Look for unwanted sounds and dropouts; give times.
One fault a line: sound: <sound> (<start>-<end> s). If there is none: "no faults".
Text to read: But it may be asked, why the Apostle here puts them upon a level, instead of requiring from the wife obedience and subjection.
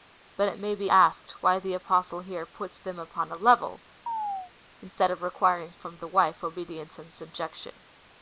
sound: chirp (4.1-4.5 s)